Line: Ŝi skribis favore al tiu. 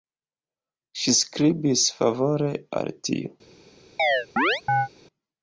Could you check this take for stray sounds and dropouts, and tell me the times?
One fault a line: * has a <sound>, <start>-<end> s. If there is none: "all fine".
* has a chirp, 4.0-4.9 s